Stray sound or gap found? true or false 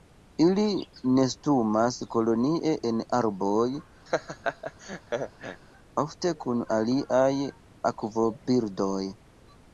true